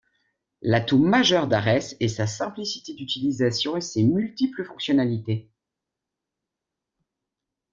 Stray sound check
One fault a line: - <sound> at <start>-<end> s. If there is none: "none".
none